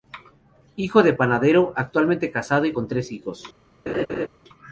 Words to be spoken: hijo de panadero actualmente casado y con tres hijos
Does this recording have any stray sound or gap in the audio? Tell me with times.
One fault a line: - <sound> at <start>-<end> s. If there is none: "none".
- laugh at 3.9-4.3 s